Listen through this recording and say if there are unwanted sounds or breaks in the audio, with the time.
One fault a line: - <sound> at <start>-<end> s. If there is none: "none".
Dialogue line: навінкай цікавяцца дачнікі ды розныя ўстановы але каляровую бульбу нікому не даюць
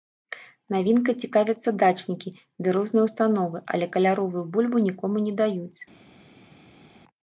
none